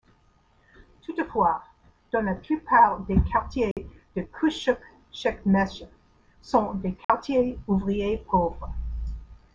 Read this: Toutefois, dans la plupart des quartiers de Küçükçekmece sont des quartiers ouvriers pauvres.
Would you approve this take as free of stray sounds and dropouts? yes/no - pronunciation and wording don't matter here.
no